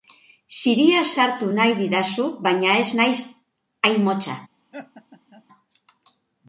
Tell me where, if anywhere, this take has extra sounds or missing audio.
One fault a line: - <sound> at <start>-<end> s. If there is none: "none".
- laugh at 4.7-5.4 s